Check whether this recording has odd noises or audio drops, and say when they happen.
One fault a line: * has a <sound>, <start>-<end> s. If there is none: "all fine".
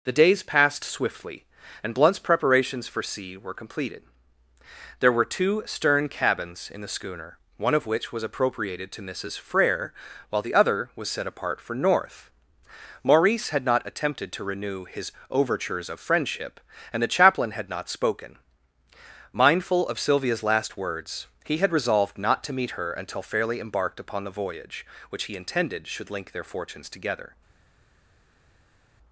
all fine